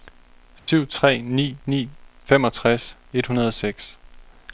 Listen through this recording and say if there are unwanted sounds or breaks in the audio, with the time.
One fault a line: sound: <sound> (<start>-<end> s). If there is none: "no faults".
sound: dropout (0.6-0.7 s)